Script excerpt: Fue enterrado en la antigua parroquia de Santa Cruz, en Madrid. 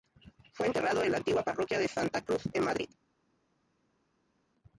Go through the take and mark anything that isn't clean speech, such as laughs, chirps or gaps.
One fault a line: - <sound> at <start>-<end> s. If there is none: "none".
none